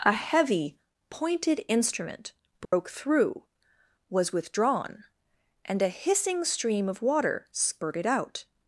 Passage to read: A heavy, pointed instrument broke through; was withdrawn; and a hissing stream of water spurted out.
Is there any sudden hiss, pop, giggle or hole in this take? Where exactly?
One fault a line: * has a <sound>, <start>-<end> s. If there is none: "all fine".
* has a dropout, 2.6-2.7 s